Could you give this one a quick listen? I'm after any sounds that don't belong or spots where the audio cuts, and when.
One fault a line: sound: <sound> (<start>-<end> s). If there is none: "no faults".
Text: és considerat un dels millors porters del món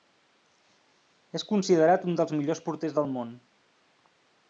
no faults